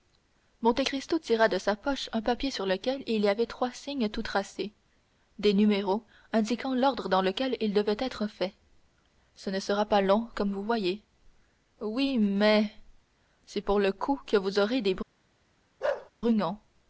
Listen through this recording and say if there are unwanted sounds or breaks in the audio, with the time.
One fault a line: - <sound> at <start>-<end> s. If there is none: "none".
- bark at 15.8-16.1 s